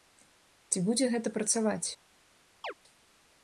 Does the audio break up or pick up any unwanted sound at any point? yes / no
yes